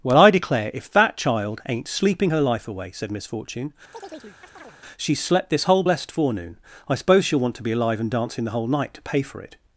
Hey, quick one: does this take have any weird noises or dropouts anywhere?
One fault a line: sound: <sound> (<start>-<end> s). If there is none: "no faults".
sound: chirp (3.9-4.8 s)